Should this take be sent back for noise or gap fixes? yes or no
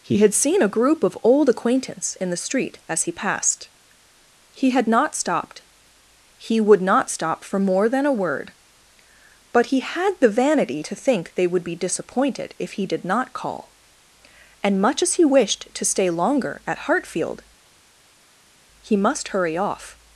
no